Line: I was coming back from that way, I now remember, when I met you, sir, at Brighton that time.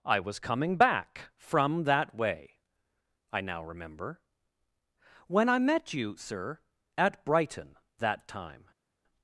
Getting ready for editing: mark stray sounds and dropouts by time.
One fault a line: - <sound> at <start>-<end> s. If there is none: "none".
none